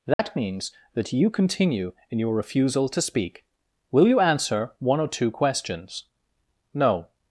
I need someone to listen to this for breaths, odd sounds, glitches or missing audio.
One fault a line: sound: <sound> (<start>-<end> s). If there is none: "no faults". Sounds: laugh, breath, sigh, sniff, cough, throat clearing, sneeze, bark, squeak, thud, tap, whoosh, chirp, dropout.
sound: dropout (0.1-0.2 s)